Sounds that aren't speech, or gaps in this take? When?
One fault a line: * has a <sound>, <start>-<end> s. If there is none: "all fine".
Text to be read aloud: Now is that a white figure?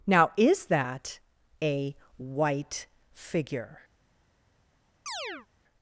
* has a chirp, 5.1-5.5 s